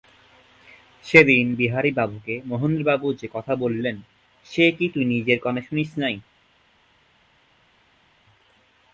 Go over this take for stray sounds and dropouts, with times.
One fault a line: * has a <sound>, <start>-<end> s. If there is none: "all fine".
all fine